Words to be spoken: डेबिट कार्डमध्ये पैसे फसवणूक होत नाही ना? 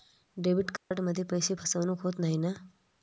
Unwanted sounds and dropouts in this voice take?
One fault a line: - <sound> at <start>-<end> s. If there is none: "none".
- dropout at 0.8-0.9 s